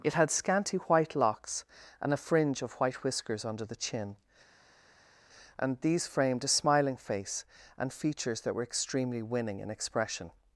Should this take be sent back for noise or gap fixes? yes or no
no